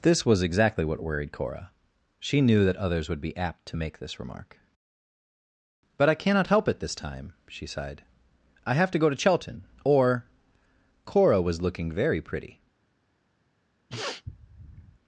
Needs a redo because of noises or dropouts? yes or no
yes